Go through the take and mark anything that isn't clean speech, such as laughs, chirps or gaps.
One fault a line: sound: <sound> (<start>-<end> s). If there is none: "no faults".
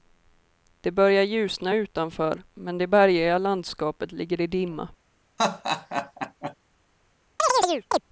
sound: laugh (5.4-6.5 s)
sound: chirp (7.4-8.0 s)